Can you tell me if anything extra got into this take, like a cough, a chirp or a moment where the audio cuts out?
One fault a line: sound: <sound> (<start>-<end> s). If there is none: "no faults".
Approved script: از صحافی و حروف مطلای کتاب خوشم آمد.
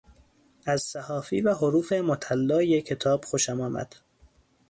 no faults